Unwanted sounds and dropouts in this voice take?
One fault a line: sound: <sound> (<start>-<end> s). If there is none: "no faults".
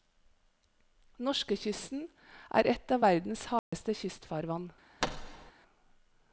sound: dropout (3.6-3.7 s)
sound: thud (5.0-5.5 s)